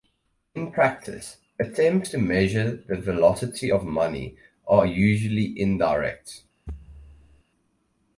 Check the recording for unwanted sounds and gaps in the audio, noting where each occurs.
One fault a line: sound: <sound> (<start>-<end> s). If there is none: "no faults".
sound: thud (6.7-7.4 s)